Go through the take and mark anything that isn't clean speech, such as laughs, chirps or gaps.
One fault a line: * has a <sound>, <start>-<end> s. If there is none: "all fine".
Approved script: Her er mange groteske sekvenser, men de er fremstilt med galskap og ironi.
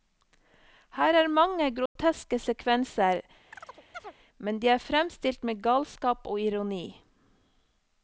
* has a dropout, 1.9-2.0 s
* has a chirp, 3.5-4.1 s